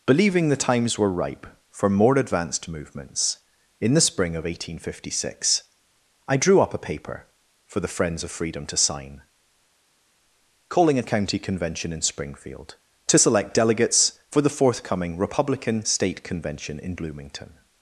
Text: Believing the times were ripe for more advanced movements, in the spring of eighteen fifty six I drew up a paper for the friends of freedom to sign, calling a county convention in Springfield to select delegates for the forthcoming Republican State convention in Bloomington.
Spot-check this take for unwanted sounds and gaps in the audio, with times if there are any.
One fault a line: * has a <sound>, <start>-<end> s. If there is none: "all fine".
all fine